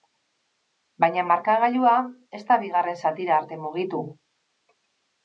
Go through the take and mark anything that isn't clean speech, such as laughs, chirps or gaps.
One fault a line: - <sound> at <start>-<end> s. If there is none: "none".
none